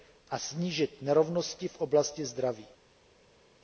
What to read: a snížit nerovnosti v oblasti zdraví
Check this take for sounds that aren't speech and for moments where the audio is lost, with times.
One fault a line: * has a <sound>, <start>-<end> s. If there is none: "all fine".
all fine